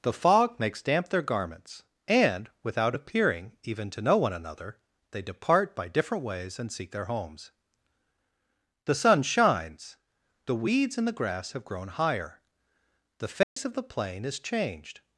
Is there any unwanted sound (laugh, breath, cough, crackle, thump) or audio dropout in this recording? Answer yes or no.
yes